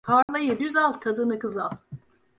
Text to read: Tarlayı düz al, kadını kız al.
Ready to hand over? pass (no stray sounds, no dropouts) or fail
fail